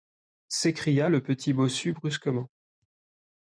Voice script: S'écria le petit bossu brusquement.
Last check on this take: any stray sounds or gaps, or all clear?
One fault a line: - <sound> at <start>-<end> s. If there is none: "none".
none